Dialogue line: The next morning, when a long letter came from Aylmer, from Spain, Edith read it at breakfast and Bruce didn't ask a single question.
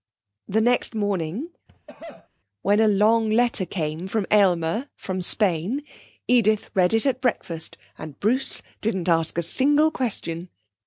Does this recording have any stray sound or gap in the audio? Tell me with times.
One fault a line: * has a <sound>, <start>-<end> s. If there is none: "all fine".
* has a cough, 1.7-2.3 s